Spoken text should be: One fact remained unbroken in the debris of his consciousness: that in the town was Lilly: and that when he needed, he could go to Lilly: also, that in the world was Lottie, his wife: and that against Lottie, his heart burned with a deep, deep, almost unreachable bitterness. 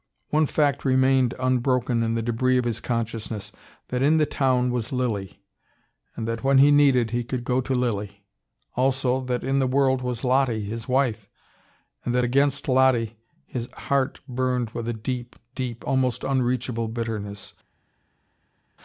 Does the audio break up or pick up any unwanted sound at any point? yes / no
no